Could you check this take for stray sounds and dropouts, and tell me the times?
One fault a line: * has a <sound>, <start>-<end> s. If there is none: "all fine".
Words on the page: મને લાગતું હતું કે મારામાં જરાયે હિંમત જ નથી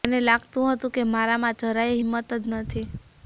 all fine